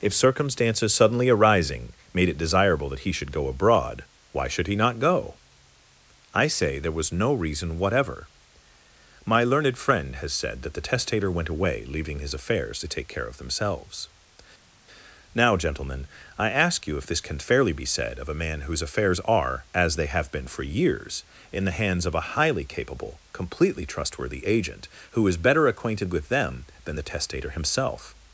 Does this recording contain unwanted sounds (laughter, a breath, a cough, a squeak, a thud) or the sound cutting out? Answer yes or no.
no